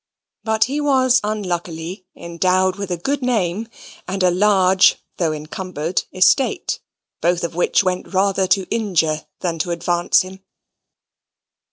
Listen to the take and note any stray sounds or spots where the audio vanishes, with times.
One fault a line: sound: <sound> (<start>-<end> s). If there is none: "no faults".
no faults